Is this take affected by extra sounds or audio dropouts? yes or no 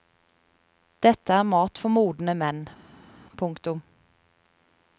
no